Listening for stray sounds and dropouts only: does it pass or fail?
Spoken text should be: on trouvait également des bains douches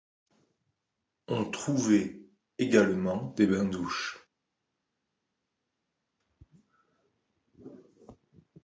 pass